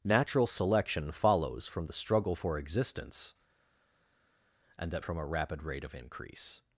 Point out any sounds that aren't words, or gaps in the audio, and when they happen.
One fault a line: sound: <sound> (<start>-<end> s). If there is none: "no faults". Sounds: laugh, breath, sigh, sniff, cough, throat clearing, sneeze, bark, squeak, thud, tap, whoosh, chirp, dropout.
no faults